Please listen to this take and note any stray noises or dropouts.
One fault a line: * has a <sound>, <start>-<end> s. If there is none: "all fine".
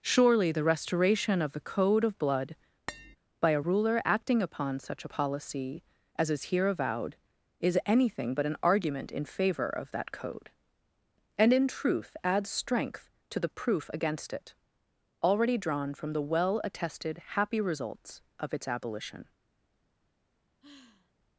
* has a tap, 2.9-3.2 s
* has a sigh, 20.6-21.1 s